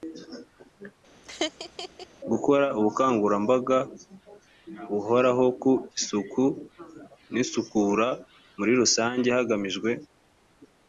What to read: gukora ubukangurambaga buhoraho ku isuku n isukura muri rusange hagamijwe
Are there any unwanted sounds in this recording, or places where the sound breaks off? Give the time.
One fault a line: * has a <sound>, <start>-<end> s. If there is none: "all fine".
* has a laugh, 1.2-2.1 s